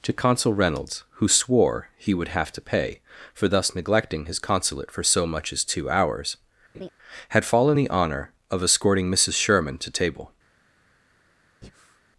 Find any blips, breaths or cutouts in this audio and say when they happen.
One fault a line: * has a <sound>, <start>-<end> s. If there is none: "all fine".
* has a laugh, 6.7-6.9 s
* has a breath, 11.6-12.0 s